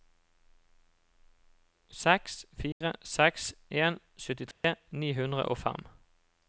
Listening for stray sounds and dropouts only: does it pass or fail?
fail